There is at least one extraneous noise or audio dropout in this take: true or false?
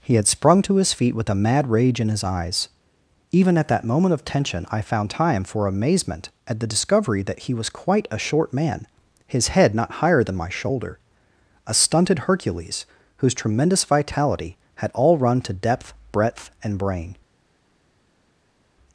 false